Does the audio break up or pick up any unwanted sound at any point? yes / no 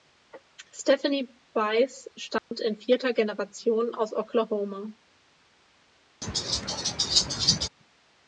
yes